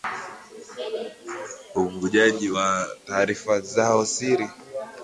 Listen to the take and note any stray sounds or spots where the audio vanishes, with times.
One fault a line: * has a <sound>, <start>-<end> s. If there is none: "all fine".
all fine